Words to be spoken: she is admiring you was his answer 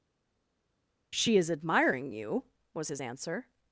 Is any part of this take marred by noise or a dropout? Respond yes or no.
no